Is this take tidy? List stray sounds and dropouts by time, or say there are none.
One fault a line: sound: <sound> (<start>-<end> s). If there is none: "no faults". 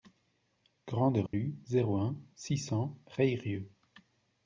sound: dropout (1.3-1.3 s)